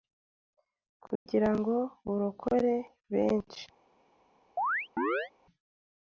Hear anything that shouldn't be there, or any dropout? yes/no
yes